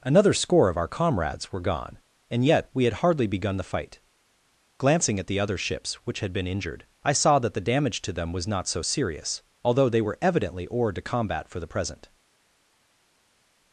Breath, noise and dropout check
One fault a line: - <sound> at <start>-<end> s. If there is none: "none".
none